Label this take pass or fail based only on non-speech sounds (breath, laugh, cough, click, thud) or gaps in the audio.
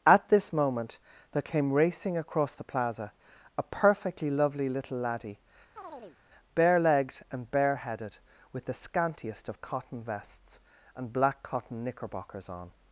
fail